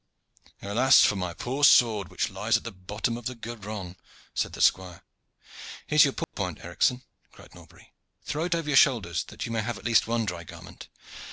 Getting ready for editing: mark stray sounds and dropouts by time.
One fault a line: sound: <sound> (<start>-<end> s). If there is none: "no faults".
sound: dropout (6.2-6.3 s)